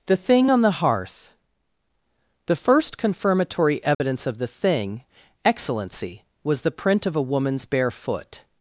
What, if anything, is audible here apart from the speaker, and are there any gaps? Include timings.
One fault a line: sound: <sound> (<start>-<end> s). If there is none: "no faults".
sound: dropout (3.9-4.0 s)